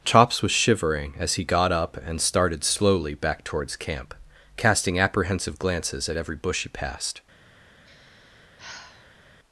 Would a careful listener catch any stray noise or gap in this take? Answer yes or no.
yes